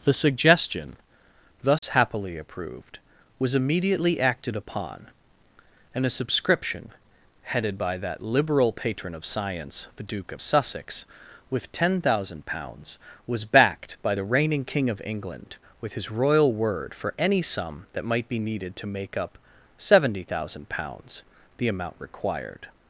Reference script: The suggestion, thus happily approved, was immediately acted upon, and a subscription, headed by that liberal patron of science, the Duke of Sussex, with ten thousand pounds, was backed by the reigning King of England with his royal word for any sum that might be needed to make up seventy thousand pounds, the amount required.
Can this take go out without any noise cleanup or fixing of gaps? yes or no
no